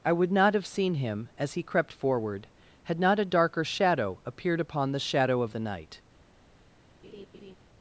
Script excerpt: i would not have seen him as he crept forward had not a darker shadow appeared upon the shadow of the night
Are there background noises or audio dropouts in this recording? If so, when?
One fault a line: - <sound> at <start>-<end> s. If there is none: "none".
- laugh at 7.0-7.6 s